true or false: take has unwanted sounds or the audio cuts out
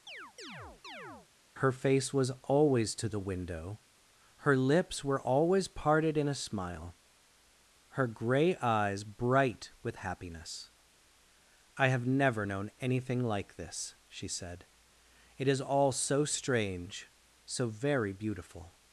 true